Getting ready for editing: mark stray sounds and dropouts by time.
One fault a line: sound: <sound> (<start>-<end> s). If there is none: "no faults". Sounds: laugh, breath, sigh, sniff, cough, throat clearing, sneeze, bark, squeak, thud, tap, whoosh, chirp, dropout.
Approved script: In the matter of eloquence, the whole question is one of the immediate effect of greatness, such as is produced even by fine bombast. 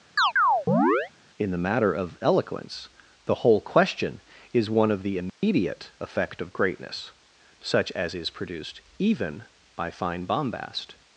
sound: chirp (0.2-1.1 s)
sound: dropout (5.3-5.4 s)